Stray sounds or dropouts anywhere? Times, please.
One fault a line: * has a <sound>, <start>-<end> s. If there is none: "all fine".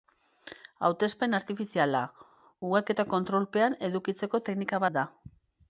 all fine